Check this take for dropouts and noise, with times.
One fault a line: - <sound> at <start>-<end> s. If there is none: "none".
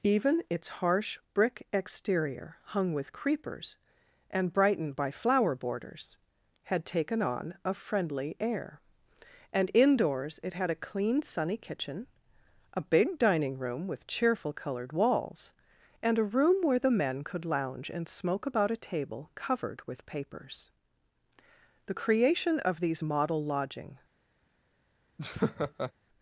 - laugh at 25.2-25.9 s